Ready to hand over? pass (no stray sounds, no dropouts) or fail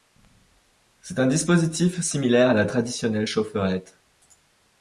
pass